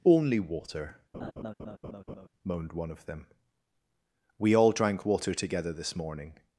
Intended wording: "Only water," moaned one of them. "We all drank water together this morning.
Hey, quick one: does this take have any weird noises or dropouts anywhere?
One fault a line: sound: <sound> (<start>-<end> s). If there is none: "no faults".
sound: laugh (1.1-2.3 s)